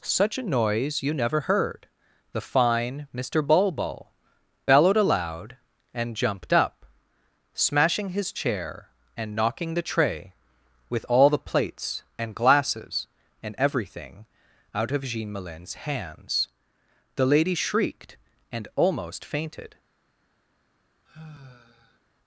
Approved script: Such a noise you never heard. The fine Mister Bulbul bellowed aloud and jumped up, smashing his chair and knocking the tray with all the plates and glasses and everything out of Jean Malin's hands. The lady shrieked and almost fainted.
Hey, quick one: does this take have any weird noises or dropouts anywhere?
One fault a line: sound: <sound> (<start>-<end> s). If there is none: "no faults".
sound: sigh (21.1-22.0 s)